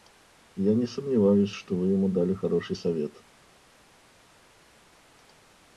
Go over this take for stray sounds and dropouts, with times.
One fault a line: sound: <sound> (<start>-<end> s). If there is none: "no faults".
no faults